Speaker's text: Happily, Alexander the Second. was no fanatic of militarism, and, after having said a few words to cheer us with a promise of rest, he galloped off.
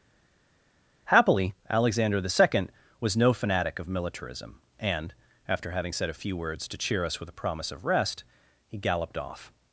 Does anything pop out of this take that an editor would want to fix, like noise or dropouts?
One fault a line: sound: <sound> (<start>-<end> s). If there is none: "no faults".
no faults